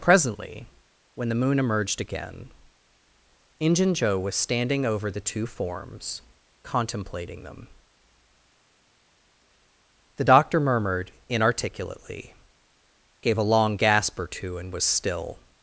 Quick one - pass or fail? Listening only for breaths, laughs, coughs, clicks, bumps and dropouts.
pass